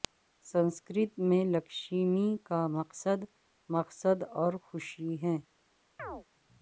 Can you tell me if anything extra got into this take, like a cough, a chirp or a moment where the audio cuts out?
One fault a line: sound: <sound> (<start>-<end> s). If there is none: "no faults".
sound: chirp (6.0-6.3 s)